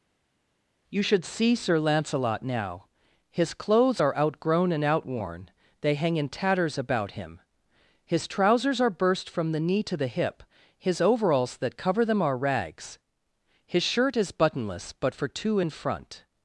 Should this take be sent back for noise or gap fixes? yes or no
no